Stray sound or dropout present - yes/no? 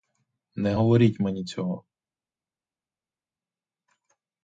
no